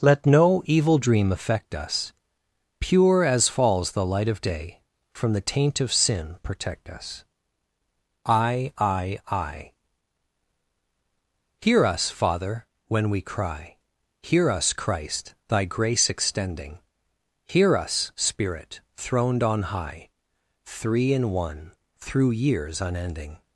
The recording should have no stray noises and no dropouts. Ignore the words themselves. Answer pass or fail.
pass